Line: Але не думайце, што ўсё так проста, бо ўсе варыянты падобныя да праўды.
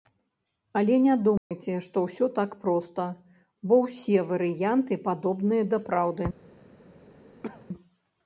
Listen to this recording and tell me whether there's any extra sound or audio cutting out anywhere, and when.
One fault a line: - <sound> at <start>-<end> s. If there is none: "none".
- dropout at 1.4-1.5 s
- cough at 7.4-7.7 s